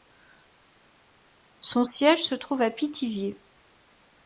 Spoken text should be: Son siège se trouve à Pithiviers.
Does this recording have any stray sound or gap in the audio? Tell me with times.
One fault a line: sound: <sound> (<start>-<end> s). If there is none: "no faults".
no faults